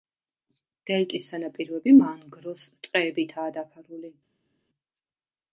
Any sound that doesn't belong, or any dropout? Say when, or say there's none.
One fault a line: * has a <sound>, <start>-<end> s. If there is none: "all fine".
all fine